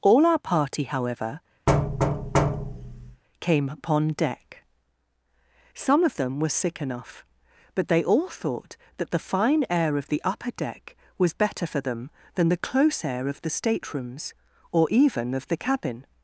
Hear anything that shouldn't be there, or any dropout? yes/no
yes